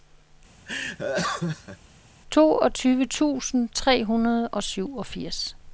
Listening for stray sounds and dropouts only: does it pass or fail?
fail